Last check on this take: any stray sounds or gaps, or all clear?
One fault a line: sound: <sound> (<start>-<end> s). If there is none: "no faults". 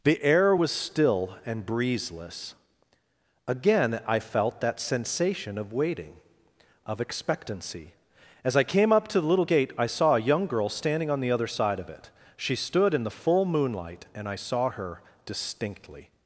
no faults